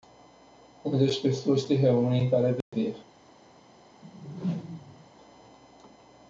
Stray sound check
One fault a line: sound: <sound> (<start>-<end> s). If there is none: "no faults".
sound: dropout (2.6-2.7 s)
sound: whoosh (4.0-5.1 s)